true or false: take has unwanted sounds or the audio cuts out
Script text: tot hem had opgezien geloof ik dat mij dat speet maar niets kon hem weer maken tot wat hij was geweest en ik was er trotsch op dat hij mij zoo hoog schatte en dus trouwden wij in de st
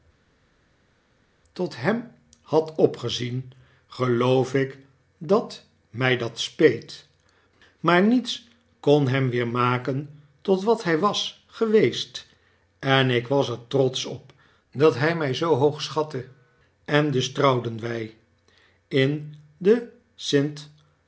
false